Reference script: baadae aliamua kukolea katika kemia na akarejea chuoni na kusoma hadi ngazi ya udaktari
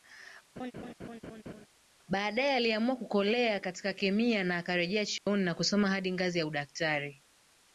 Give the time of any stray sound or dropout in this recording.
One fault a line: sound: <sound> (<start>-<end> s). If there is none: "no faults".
sound: laugh (0.6-1.7 s)
sound: dropout (5.2-5.3 s)